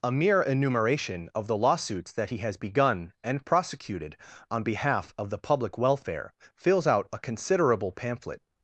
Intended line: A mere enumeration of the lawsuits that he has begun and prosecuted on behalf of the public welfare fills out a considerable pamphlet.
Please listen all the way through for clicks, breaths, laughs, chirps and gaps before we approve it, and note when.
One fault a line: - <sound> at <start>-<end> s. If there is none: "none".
none